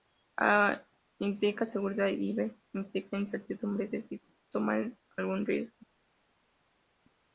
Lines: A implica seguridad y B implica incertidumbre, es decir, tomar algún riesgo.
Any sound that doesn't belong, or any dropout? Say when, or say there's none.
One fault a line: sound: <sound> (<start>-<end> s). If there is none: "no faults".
no faults